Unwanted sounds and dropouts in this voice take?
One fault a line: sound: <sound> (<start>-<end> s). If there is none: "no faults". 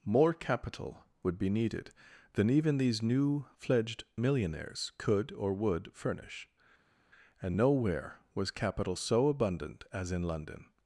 no faults